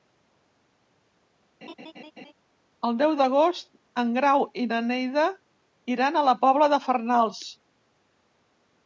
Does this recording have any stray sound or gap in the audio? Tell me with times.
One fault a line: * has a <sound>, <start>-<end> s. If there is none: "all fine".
* has a laugh, 1.6-2.3 s